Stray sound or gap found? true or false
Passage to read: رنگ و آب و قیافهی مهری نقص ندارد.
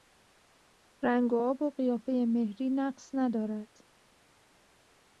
false